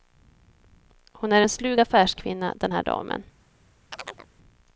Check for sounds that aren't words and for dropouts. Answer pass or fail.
fail